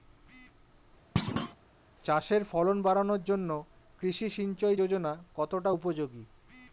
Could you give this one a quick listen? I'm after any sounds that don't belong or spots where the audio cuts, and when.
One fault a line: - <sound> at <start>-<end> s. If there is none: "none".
- thud at 1.2-1.6 s